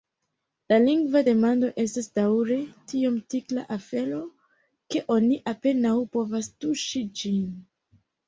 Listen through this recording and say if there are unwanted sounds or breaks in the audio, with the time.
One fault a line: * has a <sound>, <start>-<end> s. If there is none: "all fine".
all fine